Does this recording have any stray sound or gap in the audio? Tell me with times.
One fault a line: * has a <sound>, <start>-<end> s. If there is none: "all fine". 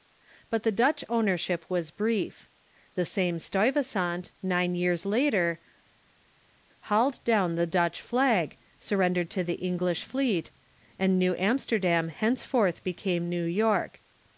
all fine